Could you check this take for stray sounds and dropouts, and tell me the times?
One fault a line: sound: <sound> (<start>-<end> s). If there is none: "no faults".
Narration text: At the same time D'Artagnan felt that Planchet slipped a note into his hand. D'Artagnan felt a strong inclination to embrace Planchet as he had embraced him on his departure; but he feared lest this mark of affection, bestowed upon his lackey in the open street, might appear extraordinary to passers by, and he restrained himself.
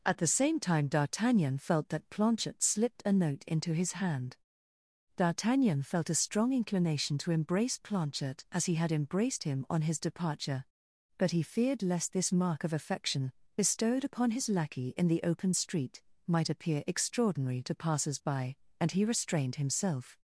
no faults